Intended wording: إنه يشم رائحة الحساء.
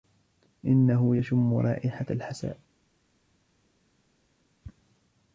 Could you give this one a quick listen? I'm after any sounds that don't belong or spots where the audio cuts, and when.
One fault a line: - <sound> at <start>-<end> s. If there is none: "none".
none